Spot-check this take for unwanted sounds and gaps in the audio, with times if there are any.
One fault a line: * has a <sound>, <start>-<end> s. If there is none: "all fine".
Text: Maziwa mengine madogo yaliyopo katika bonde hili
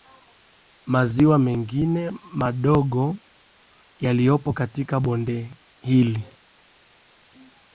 all fine